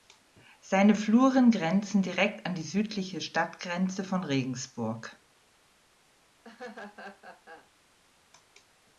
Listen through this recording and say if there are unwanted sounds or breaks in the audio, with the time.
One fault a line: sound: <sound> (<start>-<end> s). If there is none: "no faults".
sound: laugh (6.4-7.7 s)